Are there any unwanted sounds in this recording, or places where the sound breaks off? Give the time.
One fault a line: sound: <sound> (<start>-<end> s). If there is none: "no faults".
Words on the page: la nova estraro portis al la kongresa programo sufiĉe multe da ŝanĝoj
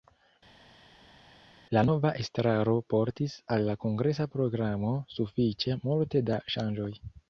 no faults